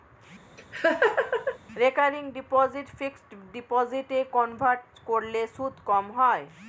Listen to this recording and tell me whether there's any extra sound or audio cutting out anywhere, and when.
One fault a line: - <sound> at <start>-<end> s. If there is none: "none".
- laugh at 0.6-1.6 s